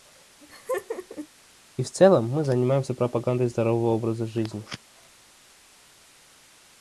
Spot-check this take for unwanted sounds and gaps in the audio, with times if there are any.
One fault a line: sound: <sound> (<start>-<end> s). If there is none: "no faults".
sound: laugh (0.4-1.3 s)